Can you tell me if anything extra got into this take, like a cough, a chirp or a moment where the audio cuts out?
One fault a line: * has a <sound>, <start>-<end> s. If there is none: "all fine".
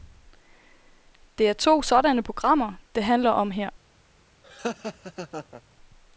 * has a laugh, 4.4-5.6 s